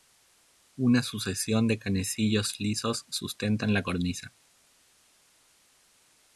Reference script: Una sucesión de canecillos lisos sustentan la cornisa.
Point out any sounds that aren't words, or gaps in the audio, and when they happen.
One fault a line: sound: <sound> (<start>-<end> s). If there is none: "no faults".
no faults